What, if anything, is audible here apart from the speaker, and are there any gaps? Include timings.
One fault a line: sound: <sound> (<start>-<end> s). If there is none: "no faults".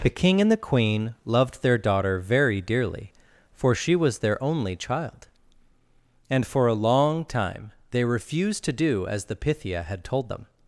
no faults